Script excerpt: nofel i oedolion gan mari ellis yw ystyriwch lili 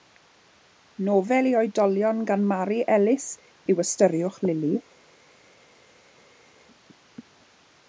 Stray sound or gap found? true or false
false